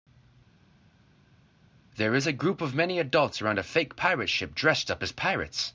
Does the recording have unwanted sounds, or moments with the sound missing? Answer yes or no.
no